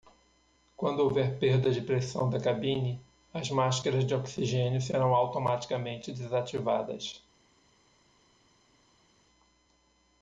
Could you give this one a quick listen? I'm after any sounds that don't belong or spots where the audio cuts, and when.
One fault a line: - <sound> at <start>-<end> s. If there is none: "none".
none